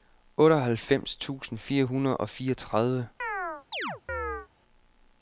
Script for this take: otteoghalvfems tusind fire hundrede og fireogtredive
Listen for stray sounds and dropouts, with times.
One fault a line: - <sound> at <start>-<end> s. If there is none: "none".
- chirp at 3.2-4.5 s